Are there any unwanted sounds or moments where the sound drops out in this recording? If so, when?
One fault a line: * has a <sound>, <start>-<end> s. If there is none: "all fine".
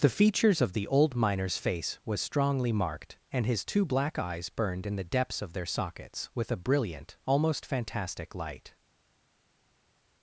all fine